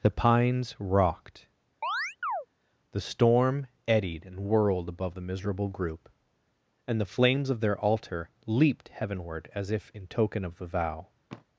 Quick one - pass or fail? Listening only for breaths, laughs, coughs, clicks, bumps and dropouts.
fail